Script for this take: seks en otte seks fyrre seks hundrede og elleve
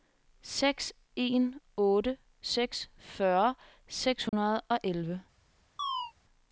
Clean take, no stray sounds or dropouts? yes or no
no